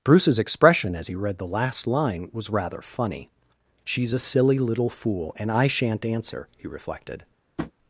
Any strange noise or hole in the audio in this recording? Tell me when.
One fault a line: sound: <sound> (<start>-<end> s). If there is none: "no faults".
sound: tap (7.6-7.7 s)